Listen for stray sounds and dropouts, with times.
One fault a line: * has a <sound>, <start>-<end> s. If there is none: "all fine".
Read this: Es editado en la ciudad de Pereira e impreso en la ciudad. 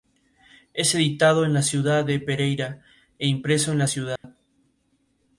* has a dropout, 4.2-4.2 s